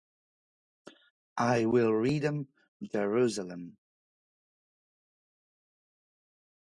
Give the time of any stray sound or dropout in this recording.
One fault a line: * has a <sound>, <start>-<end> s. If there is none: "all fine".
all fine